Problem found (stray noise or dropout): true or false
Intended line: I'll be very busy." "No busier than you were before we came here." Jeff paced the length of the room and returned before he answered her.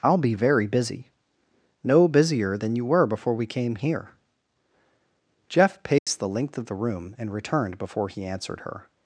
true